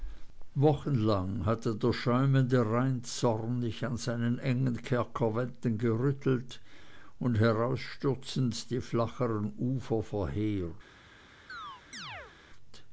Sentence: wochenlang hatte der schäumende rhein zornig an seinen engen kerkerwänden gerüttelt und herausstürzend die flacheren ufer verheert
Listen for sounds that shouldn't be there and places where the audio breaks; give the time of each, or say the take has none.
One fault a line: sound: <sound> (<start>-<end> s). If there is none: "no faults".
sound: chirp (11.5-12.3 s)